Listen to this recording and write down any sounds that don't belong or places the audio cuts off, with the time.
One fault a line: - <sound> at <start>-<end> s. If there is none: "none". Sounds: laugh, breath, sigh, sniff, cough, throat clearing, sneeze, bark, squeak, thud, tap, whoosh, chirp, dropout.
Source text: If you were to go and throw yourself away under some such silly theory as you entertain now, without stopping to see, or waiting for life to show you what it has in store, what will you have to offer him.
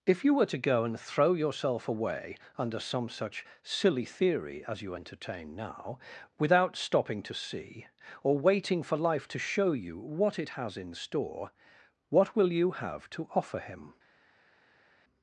none